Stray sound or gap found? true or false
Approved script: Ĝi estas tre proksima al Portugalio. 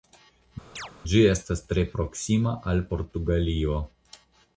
true